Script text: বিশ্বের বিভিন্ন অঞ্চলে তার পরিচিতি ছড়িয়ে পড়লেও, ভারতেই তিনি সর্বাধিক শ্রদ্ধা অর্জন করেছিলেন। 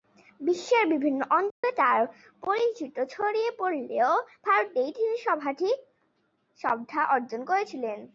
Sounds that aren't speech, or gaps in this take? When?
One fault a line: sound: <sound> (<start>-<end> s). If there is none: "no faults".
sound: dropout (1.5-1.6 s)